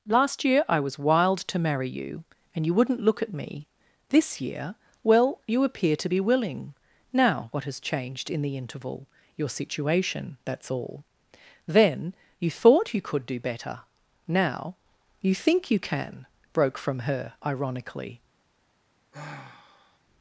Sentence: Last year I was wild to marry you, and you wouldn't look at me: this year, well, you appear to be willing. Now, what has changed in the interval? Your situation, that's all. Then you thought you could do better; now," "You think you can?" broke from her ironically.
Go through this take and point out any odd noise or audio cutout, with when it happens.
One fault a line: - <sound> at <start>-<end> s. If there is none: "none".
- sigh at 19.1-20.0 s